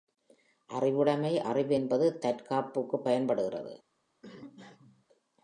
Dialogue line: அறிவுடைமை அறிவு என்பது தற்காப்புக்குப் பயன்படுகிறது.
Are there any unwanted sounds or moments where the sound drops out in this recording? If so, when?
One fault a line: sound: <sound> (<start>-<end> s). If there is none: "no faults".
sound: cough (4.2-5.1 s)